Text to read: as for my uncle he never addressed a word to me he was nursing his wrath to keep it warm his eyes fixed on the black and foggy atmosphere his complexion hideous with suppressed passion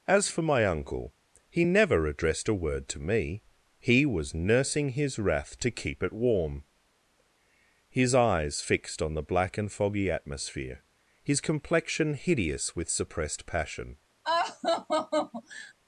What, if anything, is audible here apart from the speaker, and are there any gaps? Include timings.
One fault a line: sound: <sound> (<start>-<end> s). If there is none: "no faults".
sound: laugh (14.2-15.7 s)